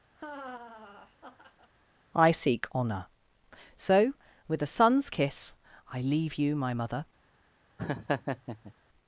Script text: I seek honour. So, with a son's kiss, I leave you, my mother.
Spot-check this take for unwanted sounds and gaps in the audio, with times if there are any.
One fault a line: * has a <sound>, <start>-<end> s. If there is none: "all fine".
* has a laugh, 0.2-1.7 s
* has a laugh, 7.8-8.7 s